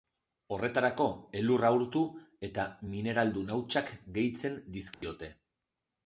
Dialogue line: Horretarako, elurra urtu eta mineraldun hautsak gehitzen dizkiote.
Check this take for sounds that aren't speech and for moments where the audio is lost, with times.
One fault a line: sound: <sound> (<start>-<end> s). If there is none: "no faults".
sound: dropout (4.9-5.0 s)